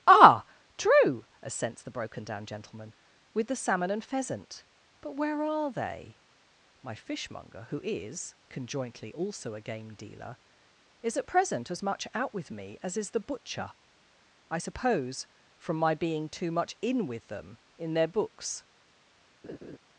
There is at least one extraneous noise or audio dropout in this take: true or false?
true